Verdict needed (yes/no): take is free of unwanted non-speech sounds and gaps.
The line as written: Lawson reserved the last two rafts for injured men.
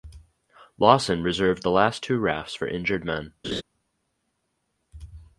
no